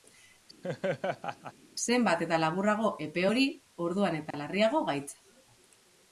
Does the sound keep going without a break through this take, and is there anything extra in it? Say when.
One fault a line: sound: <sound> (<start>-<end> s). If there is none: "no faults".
sound: laugh (0.6-1.5 s)
sound: dropout (4.3-4.3 s)